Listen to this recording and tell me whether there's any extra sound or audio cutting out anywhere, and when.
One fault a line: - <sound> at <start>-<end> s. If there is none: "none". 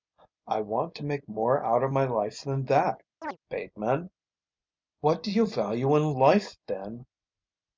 - chirp at 3.2-3.4 s